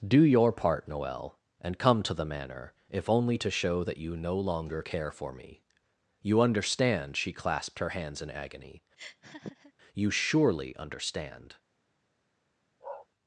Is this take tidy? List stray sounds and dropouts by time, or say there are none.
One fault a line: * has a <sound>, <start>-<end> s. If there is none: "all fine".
* has a laugh, 9.0-9.7 s
* has a bark, 12.8-13.1 s